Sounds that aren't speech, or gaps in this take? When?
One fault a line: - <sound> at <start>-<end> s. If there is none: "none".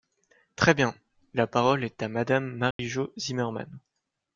- dropout at 2.7-2.8 s